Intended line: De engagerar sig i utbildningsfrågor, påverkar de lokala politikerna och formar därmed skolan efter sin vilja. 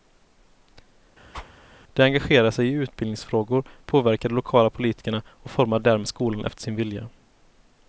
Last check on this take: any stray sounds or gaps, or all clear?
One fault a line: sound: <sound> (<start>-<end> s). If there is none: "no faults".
sound: whoosh (1.3-1.5 s)